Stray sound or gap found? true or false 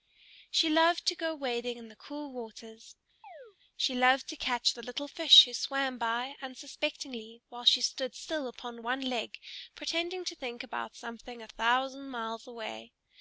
true